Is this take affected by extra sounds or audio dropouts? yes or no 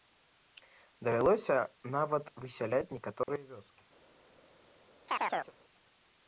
yes